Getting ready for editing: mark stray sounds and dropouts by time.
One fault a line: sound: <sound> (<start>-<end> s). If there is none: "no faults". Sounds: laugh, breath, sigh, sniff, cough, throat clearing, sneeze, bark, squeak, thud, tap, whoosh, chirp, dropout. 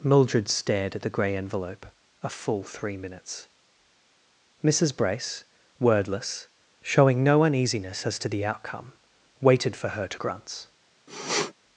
sound: sniff (11.1-11.5 s)